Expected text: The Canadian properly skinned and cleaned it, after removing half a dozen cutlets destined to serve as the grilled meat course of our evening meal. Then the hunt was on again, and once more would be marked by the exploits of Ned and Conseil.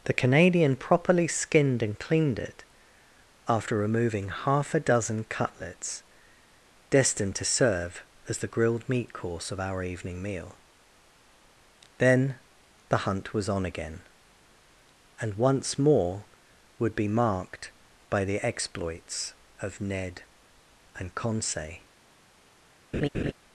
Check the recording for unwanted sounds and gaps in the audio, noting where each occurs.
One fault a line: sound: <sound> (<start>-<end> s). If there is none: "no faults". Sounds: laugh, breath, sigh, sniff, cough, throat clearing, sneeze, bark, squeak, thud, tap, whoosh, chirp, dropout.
sound: laugh (22.9-23.3 s)